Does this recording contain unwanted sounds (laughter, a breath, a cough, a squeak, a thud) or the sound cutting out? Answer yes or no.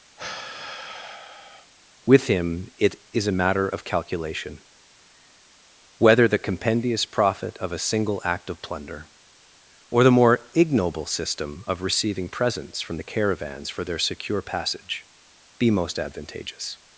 yes